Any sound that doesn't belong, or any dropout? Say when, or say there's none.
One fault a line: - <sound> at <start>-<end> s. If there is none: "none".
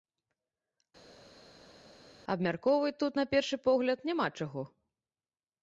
none